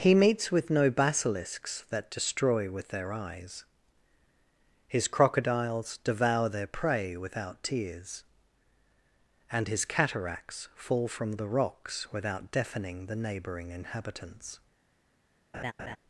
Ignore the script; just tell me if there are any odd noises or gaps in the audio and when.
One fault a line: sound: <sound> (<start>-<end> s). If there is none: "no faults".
sound: laugh (15.5-16.0 s)